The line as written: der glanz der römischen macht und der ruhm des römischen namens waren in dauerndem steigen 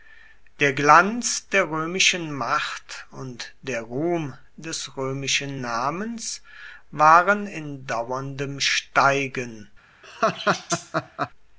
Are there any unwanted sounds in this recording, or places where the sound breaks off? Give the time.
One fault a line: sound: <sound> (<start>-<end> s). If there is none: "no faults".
sound: laugh (10.0-11.3 s)